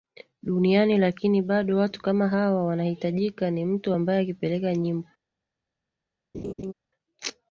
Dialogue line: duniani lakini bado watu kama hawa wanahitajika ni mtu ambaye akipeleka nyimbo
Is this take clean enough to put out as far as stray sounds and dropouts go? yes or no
no